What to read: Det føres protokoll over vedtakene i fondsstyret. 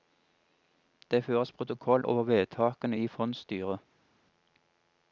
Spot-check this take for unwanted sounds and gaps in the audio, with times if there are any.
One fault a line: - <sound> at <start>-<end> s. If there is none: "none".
none